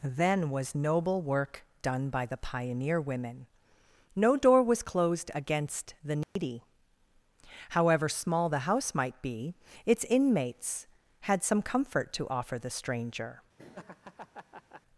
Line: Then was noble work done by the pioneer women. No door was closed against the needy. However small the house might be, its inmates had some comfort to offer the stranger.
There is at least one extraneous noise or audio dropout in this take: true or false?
true